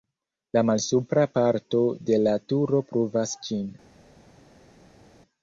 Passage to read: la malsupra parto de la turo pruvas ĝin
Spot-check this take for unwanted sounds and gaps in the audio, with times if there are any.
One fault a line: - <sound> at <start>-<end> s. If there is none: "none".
none